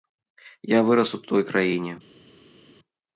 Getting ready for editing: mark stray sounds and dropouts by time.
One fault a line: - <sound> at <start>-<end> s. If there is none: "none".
none